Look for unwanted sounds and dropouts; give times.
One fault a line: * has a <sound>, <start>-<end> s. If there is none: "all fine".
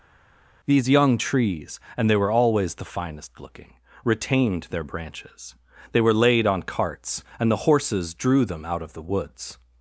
all fine